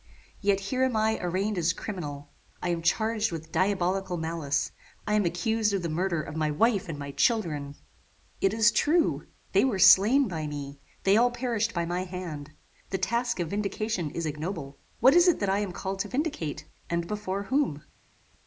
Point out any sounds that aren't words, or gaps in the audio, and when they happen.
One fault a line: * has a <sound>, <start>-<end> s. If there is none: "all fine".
all fine